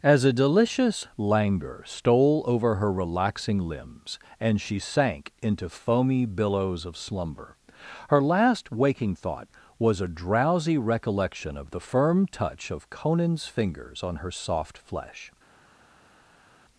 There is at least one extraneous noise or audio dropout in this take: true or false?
false